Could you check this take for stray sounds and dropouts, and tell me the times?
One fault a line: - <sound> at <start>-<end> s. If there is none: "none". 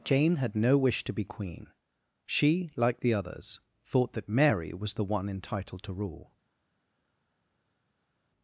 none